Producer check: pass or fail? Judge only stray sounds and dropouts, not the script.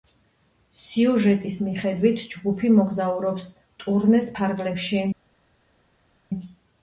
pass